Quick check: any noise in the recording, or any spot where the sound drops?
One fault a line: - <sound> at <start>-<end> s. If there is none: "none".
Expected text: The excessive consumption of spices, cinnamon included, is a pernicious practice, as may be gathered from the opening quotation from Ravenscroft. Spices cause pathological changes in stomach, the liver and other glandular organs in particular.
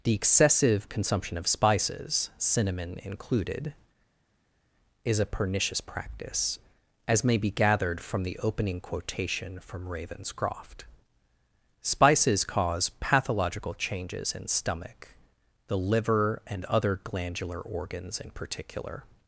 none